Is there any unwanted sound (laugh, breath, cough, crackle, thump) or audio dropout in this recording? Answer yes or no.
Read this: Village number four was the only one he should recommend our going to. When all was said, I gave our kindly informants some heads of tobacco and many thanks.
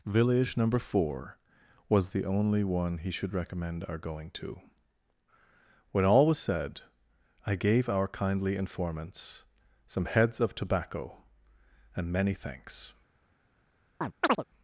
yes